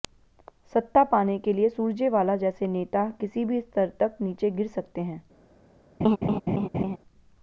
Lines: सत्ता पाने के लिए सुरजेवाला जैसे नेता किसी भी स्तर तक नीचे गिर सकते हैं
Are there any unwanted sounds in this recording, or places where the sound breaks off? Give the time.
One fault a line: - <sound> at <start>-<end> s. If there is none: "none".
- laugh at 6.0-7.0 s